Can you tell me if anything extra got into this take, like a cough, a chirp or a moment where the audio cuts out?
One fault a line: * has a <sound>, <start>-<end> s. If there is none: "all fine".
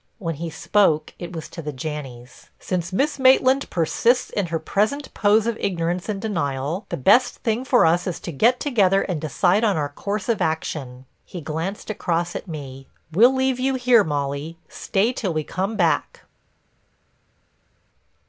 all fine